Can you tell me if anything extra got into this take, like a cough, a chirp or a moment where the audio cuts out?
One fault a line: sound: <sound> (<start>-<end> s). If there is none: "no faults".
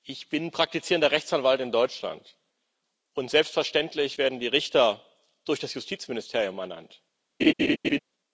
sound: laugh (7.4-8.0 s)